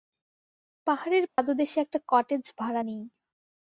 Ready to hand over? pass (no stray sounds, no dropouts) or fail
fail